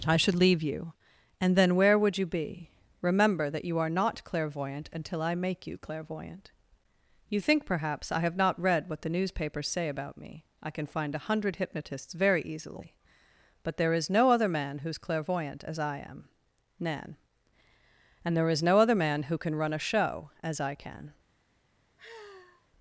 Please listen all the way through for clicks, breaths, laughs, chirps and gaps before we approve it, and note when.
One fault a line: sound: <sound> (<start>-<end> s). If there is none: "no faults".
sound: sigh (22.0-22.7 s)